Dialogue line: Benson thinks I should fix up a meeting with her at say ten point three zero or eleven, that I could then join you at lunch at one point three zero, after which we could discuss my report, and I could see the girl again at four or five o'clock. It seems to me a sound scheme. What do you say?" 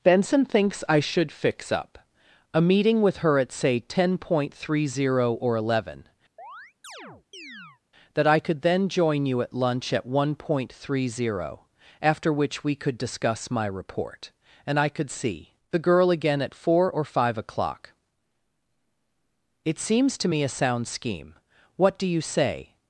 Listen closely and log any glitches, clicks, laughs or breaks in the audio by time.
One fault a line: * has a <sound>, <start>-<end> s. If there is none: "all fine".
* has a chirp, 6.4-7.8 s